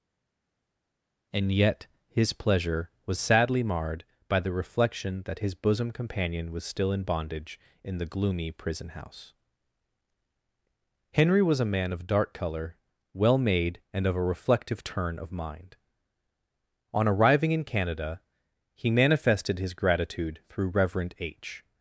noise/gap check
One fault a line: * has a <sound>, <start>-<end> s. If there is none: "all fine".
all fine